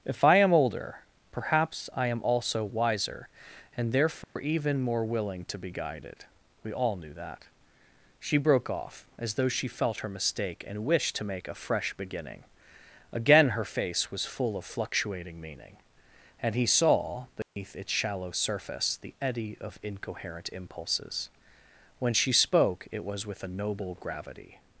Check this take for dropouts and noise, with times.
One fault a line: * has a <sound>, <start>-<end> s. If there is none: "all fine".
* has a dropout, 4.2-4.4 s
* has a dropout, 17.4-17.6 s